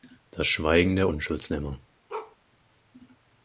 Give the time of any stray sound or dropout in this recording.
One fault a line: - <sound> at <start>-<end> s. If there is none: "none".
- bark at 2.1-2.4 s